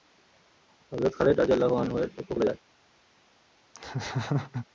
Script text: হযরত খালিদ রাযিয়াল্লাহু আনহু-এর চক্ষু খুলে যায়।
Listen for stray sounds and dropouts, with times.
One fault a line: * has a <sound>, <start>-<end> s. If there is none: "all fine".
* has a laugh, 3.7-4.7 s